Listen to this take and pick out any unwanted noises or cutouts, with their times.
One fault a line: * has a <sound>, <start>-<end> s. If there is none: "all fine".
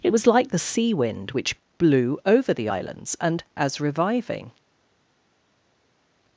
all fine